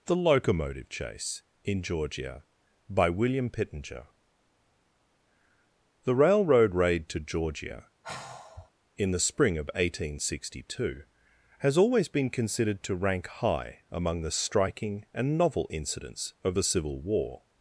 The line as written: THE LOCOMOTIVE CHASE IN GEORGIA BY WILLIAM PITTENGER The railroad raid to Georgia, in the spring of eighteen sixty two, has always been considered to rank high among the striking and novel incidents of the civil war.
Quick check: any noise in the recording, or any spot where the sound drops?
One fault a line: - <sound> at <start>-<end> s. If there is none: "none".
- sigh at 8.0-8.7 s